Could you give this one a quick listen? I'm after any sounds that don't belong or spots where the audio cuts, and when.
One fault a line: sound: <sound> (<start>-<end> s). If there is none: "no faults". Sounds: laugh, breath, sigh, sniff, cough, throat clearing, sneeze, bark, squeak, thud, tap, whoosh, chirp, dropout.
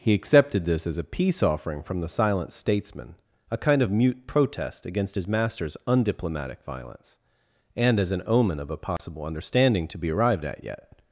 sound: dropout (9.0-9.0 s)